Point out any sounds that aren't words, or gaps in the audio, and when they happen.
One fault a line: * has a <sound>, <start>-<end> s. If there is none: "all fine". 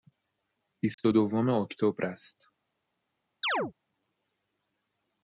* has a dropout, 0.9-1.0 s
* has a chirp, 3.4-3.7 s